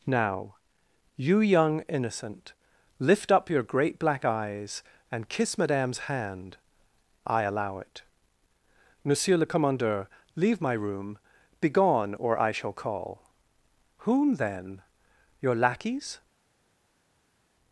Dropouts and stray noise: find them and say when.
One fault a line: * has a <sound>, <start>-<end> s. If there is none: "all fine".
all fine